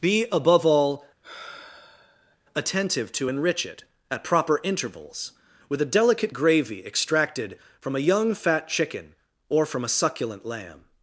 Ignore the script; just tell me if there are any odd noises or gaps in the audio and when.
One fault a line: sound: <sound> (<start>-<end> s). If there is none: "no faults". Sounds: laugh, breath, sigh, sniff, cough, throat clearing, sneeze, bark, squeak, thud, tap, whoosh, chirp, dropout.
sound: sigh (1.2-2.4 s)